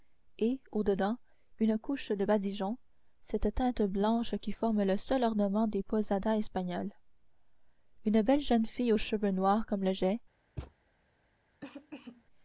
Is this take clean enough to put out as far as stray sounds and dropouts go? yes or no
no